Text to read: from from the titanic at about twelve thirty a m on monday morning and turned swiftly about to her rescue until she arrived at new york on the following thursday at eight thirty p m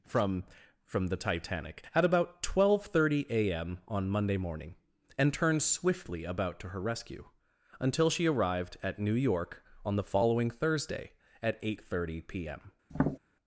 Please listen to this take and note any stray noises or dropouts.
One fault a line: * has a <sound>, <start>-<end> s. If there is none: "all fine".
* has a tap, 12.9-13.2 s